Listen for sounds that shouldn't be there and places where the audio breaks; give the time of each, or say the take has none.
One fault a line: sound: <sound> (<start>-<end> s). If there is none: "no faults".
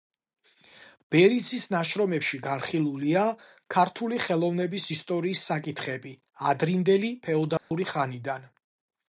sound: dropout (7.6-7.7 s)